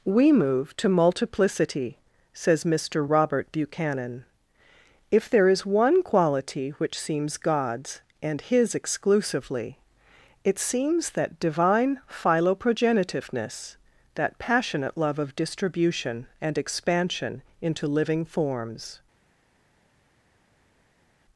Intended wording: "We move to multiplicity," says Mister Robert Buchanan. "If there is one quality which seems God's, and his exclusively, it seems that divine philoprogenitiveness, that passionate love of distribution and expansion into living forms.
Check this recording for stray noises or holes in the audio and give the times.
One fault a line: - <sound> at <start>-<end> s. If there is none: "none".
none